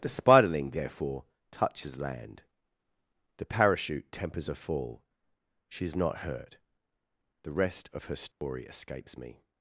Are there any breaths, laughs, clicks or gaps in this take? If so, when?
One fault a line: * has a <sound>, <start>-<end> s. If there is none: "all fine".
* has a dropout, 8.3-8.4 s